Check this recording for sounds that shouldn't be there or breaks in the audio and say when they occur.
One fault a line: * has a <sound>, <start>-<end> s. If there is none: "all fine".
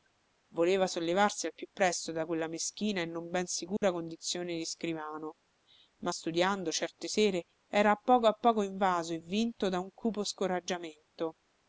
* has a dropout, 3.8-3.8 s